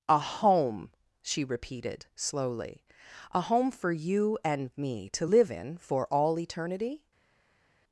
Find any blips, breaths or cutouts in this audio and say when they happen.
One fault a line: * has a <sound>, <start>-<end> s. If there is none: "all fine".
all fine